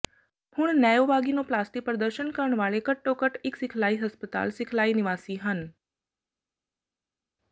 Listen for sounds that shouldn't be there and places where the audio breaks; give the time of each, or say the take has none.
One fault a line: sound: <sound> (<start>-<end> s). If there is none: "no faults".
no faults